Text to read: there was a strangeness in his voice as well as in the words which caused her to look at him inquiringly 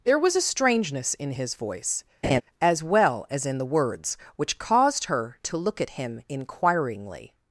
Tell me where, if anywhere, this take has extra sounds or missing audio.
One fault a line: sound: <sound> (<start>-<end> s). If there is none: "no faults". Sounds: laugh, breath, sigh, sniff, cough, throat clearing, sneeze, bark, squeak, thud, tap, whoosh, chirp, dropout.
sound: laugh (2.2-2.4 s)